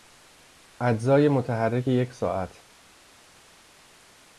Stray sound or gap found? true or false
false